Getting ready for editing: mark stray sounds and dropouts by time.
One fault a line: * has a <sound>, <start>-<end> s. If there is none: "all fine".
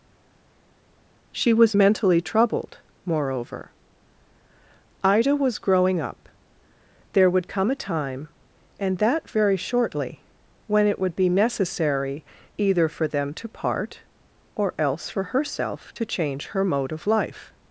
all fine